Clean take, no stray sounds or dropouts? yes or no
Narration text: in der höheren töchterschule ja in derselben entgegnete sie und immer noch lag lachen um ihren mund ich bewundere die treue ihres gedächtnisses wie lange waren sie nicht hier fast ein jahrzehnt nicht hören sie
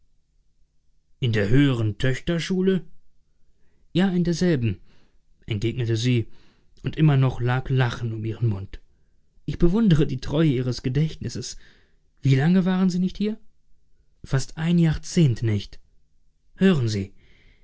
yes